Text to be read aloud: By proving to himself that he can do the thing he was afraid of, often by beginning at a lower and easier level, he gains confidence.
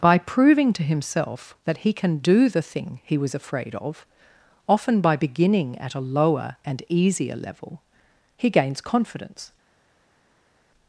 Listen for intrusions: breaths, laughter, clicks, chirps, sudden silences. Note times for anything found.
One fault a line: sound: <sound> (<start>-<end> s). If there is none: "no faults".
no faults